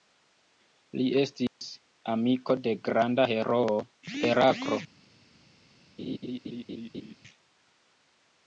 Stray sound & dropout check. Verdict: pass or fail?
fail